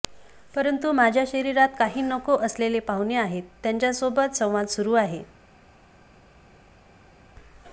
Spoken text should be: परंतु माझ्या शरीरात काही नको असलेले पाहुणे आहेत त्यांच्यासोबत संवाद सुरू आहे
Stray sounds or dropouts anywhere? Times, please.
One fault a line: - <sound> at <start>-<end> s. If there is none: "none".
none